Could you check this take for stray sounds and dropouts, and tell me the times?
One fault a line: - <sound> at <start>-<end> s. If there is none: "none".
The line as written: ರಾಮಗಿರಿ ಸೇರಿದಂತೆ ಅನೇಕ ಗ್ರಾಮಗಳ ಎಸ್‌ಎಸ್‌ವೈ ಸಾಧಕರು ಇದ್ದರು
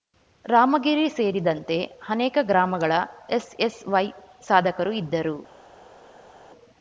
none